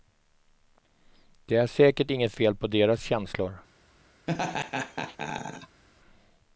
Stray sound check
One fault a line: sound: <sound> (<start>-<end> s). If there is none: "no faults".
sound: laugh (4.3-5.8 s)